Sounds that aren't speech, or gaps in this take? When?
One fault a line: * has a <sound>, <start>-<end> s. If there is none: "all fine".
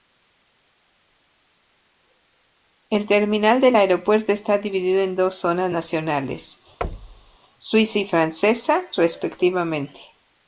* has a thud, 6.8-7.4 s